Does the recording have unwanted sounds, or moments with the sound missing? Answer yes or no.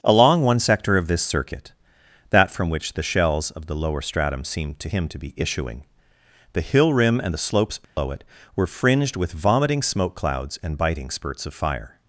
yes